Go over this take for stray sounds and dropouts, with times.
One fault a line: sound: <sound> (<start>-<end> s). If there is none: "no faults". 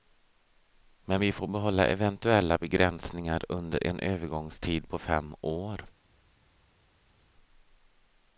no faults